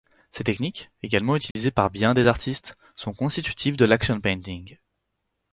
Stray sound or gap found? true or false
true